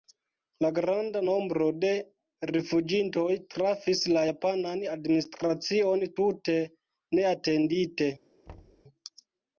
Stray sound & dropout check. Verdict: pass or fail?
fail